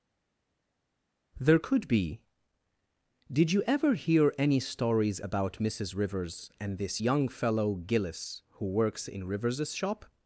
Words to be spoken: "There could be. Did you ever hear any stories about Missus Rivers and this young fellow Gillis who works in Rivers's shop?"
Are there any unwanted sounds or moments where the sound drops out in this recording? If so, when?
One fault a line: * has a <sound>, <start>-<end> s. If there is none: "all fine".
all fine